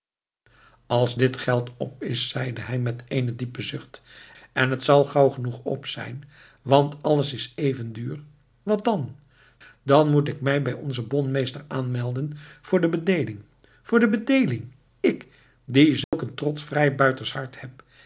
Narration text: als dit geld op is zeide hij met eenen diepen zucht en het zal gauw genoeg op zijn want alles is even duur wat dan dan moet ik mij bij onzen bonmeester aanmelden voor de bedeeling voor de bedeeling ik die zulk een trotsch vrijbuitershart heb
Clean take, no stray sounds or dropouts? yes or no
no